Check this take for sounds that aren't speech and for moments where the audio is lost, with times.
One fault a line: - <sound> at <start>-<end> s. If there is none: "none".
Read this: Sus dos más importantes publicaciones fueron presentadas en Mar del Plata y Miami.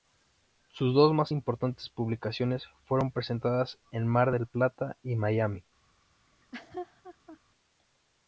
- laugh at 6.3-7.4 s